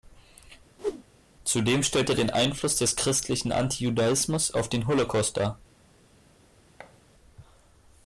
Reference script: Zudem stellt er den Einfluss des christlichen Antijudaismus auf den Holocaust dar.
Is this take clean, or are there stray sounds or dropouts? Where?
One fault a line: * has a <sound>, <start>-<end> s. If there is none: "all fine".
* has a whoosh, 0.8-1.0 s
* has a thud, 6.8-7.0 s